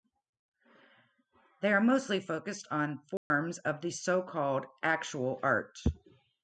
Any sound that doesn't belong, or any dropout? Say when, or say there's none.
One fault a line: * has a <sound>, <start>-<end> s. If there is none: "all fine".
* has a dropout, 3.2-3.3 s